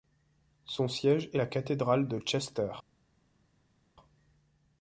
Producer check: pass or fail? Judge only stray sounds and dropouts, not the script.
pass